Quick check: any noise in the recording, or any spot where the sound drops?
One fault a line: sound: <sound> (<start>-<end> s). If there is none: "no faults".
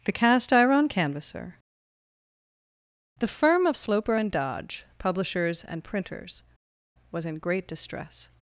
no faults